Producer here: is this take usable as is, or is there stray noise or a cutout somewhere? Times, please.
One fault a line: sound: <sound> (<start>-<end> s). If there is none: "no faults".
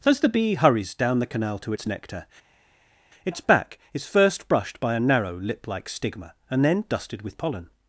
no faults